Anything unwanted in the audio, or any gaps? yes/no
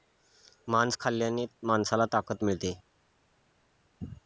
no